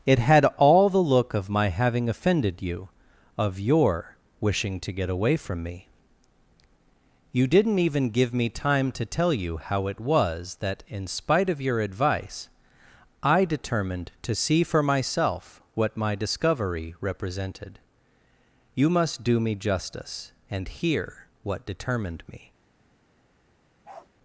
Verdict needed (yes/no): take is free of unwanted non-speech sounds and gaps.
no